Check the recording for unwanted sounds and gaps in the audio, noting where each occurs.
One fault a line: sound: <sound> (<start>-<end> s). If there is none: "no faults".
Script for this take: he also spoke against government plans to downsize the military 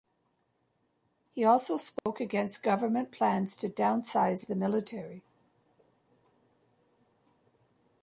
sound: dropout (2.0-2.1 s)